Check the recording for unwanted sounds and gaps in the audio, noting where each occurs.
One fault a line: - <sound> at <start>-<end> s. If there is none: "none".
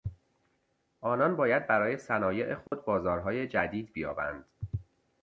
- dropout at 2.7-2.7 s